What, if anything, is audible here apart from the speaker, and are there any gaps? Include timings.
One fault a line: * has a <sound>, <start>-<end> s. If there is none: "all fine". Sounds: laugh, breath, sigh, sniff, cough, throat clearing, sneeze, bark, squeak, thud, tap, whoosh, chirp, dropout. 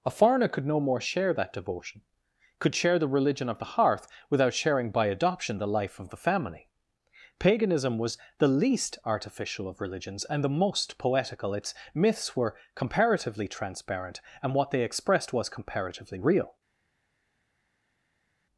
all fine